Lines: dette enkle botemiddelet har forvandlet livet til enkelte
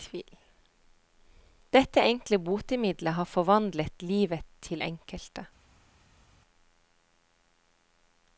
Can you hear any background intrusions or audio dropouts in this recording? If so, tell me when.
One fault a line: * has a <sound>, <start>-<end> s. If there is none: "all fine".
all fine